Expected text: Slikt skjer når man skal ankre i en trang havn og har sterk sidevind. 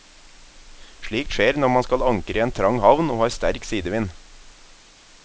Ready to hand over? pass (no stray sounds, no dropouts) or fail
pass